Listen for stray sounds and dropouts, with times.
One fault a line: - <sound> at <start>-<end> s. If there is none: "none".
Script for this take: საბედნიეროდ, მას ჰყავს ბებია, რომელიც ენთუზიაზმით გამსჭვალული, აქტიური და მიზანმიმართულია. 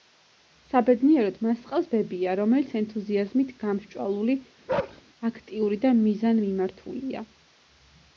- bark at 4.7-5.0 s